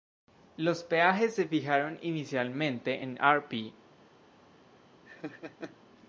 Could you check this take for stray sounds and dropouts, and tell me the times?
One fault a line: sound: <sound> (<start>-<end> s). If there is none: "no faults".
sound: laugh (5.1-5.8 s)